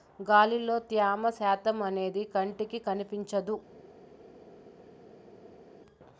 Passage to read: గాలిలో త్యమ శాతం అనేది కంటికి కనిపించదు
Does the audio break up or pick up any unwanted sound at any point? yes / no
no